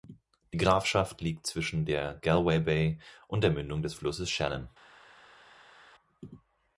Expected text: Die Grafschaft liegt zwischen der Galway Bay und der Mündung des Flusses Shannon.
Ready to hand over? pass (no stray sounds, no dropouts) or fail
pass